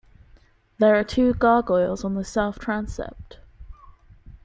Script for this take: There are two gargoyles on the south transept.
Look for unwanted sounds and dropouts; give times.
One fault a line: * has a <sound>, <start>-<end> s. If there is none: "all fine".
all fine